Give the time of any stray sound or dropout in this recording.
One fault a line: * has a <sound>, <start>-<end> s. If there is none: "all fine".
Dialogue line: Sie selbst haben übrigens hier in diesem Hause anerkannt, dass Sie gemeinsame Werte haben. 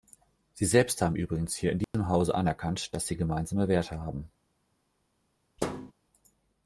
* has a dropout, 1.8-1.9 s
* has a thud, 5.6-5.9 s